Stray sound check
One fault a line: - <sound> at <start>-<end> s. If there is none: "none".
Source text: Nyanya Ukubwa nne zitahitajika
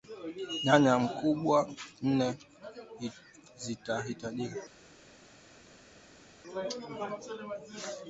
none